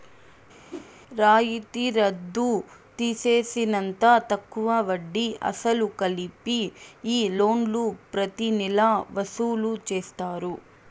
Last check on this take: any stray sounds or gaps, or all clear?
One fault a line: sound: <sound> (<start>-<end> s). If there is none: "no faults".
sound: whoosh (0.7-0.9 s)